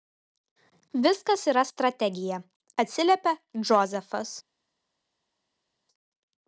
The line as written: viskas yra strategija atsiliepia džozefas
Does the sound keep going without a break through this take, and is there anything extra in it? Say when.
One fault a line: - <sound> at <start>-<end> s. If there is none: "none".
none